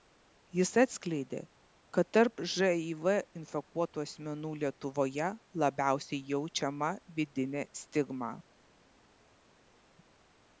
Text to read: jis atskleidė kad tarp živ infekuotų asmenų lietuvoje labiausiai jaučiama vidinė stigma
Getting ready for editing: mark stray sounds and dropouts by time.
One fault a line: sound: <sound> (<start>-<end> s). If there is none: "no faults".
no faults